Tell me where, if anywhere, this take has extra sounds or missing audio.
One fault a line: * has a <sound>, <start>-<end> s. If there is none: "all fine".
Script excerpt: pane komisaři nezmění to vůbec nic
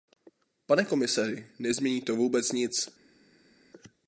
all fine